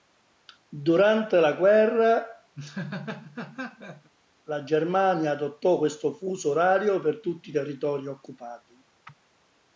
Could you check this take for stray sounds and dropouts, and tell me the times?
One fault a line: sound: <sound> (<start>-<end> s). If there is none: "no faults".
sound: laugh (2.5-4.1 s)